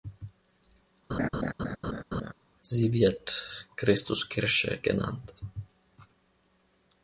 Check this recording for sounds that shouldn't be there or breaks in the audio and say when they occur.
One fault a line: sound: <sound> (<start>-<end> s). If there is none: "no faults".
sound: laugh (1.1-2.3 s)